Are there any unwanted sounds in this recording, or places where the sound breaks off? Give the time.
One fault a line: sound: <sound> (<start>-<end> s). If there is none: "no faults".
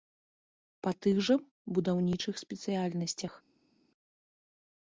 no faults